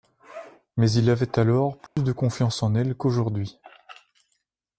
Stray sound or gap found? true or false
true